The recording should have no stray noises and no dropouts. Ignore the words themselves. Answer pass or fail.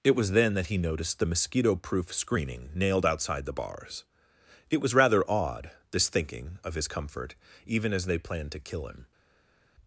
pass